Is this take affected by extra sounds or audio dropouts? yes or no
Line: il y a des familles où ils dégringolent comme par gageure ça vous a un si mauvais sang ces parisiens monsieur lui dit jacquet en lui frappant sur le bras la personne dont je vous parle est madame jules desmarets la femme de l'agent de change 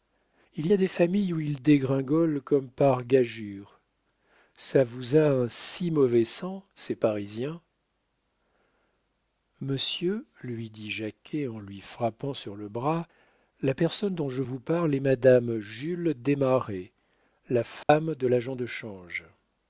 yes